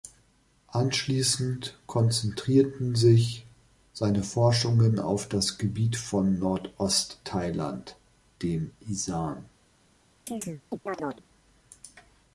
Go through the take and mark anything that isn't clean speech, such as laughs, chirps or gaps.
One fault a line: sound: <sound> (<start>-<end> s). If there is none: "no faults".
sound: chirp (10.3-11.3 s)